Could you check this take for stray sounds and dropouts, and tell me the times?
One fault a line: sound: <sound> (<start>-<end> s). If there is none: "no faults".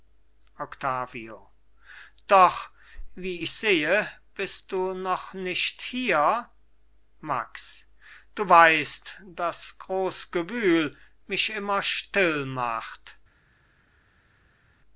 no faults